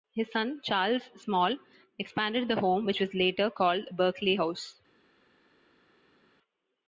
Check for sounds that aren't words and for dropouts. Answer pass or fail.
pass